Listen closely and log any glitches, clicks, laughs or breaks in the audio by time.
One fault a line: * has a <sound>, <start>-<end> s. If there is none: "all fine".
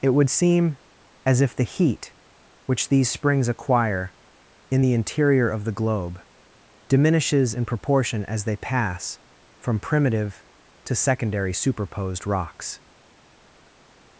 all fine